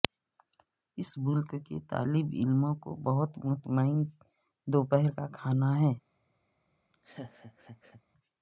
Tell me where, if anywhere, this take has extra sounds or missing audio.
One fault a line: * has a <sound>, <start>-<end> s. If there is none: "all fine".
* has a laugh, 6.9-8.0 s